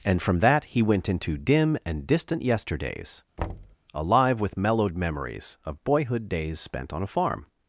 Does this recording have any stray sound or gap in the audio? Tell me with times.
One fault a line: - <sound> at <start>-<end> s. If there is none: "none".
- thud at 3.4-3.8 s